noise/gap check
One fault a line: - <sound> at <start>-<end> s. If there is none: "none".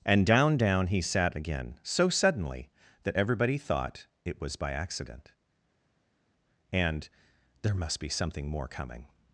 none